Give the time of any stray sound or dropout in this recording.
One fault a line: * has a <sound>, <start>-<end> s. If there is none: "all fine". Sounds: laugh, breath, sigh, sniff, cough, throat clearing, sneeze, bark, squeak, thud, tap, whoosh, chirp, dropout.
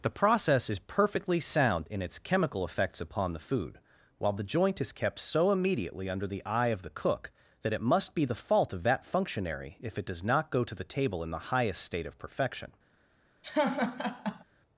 * has a laugh, 13.4-14.4 s